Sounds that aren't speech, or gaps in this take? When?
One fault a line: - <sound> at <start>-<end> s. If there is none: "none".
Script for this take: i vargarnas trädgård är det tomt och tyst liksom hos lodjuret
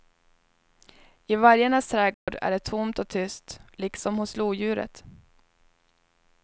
- dropout at 2.1-2.3 s